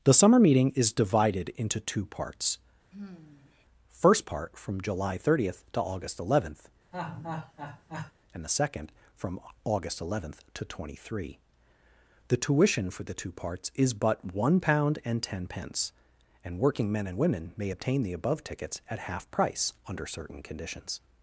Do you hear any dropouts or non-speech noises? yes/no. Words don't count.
yes